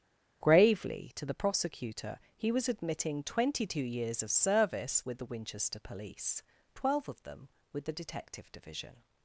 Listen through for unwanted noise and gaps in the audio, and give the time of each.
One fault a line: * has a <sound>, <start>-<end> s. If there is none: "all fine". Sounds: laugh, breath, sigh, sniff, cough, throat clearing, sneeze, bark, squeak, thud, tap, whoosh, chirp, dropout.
all fine